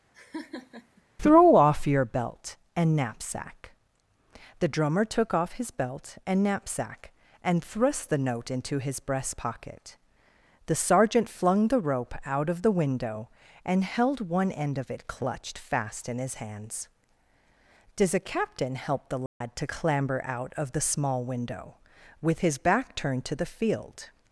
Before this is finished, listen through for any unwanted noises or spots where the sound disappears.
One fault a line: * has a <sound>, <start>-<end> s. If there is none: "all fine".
* has a laugh, 0.1-1.0 s
* has a dropout, 19.3-19.4 s